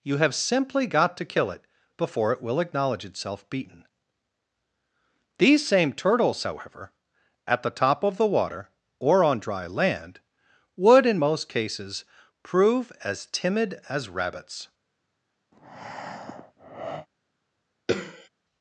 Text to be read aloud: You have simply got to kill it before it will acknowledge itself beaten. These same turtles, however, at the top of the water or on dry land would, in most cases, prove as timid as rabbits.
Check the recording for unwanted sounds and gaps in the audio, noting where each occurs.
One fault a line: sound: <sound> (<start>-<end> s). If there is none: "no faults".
sound: breath (15.5-17.1 s)
sound: throat clearing (17.9-18.3 s)